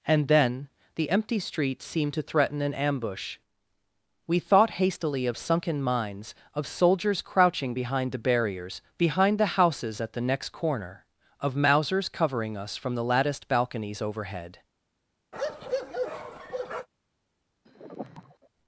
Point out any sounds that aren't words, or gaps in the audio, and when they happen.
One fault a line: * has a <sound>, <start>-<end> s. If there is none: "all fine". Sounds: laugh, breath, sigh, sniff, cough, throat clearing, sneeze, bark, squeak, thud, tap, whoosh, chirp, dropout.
* has a bark, 15.3-16.9 s
* has a sigh, 17.6-18.5 s